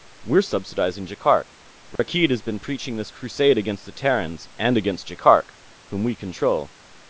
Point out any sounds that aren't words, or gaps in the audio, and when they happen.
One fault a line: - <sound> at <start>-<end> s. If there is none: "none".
- dropout at 2.0-2.0 s